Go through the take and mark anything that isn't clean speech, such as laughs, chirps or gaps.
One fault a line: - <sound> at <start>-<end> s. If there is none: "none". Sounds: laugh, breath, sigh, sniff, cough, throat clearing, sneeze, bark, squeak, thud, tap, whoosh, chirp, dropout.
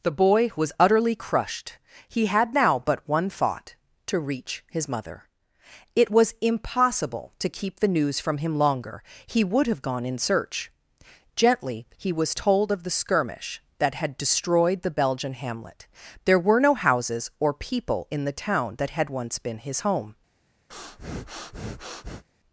- breath at 20.7-22.2 s